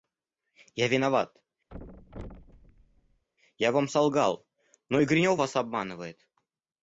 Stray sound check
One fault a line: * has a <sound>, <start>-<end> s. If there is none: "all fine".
* has a thud, 1.7-3.2 s